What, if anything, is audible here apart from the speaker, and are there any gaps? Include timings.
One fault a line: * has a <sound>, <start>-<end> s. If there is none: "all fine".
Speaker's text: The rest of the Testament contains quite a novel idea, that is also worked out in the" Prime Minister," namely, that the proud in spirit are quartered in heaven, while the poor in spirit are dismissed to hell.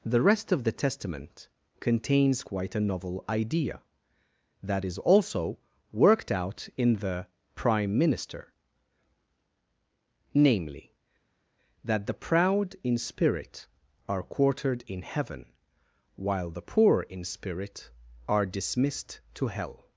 all fine